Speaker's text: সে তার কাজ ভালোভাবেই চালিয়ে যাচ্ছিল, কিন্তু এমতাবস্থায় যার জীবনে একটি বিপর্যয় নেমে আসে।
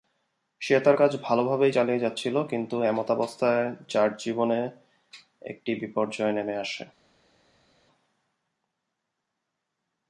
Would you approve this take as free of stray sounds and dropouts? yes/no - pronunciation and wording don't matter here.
yes